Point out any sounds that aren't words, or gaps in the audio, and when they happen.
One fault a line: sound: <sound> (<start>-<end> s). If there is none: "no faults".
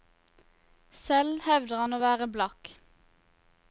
no faults